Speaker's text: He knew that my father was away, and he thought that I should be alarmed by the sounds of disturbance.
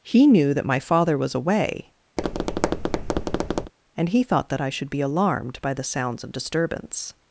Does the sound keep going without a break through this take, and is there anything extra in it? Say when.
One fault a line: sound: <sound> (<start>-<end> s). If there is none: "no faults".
sound: tap (2.2-3.7 s)